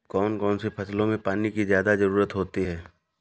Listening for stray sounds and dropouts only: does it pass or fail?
pass